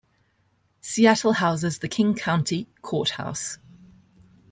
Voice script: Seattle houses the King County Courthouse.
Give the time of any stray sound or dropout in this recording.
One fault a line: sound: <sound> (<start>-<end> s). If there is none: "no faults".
no faults